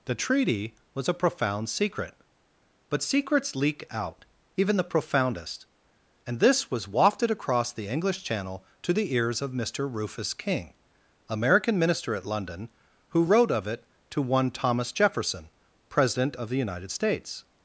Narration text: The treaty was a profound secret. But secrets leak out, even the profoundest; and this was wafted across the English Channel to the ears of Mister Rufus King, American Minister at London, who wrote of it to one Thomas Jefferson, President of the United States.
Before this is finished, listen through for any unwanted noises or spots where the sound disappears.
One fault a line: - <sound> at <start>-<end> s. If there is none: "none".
none